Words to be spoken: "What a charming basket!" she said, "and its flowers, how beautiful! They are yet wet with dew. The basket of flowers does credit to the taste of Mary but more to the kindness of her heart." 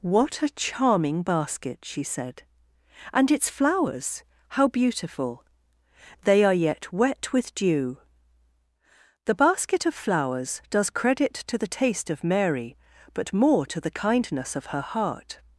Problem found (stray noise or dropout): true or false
false